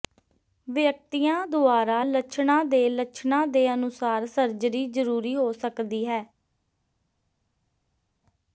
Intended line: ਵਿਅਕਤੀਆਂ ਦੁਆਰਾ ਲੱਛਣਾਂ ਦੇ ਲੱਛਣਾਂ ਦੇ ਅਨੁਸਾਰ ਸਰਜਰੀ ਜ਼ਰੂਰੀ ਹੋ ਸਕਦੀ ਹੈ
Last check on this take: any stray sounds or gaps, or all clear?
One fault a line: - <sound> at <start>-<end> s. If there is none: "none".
none